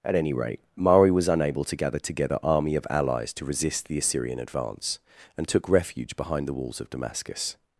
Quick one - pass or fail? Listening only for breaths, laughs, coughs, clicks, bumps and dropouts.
pass